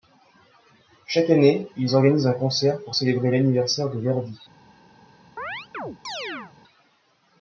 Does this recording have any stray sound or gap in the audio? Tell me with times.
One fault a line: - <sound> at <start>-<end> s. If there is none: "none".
- chirp at 5.4-6.5 s